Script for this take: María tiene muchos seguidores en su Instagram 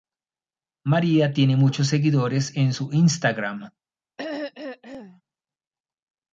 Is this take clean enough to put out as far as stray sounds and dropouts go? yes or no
no